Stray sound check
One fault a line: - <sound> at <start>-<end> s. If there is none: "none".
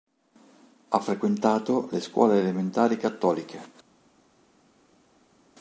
none